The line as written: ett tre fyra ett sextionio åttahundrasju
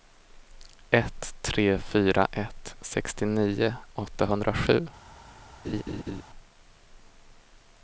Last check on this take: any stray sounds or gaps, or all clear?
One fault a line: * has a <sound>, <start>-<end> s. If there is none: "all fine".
* has a laugh, 5.6-6.2 s